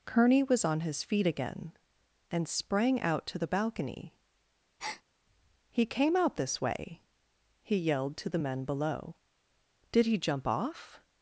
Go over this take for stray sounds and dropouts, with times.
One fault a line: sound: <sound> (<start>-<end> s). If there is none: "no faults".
sound: breath (4.8-5.0 s)